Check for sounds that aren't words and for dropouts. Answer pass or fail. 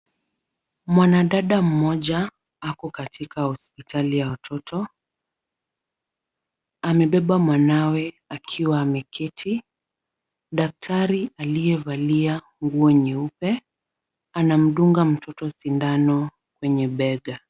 pass